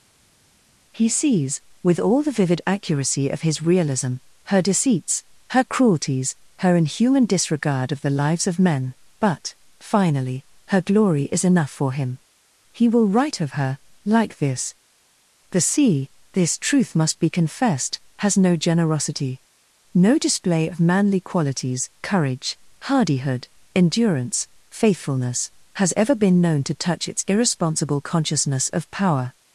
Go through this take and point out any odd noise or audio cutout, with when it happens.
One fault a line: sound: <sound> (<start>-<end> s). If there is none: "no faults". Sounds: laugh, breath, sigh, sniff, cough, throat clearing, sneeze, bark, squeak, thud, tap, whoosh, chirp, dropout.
no faults